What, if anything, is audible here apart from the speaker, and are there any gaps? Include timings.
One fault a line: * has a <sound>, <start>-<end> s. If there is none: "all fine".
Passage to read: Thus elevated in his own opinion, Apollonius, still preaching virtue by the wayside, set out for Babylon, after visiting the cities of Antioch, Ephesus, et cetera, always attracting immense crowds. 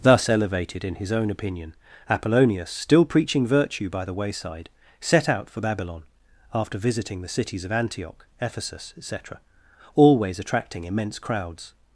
all fine